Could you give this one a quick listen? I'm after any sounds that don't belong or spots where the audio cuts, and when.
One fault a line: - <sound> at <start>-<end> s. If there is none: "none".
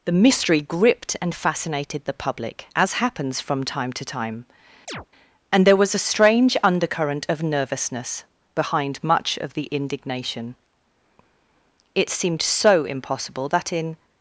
- chirp at 4.9-5.1 s